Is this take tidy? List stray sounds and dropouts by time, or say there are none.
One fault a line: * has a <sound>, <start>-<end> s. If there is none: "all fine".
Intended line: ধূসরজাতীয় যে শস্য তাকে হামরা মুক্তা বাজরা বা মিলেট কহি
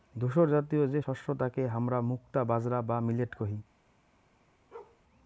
* has a bark, 4.7-5.0 s